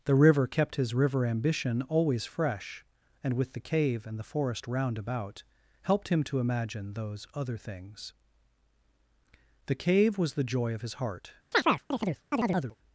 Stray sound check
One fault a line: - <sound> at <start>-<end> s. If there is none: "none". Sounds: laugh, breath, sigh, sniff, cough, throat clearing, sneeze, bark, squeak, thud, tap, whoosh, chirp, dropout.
- chirp at 11.5-12.8 s